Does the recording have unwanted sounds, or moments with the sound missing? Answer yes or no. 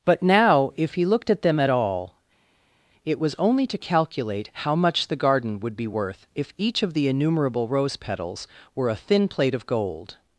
no